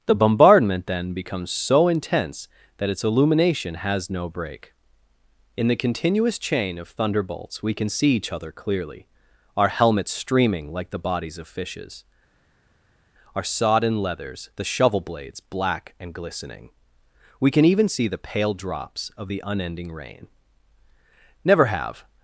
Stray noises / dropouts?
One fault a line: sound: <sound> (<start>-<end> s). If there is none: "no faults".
no faults